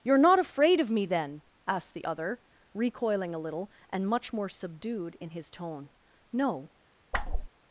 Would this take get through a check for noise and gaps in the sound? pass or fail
fail